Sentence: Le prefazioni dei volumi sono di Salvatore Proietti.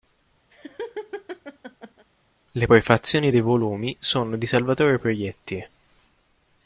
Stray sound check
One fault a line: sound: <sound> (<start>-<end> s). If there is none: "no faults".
sound: laugh (0.5-2.1 s)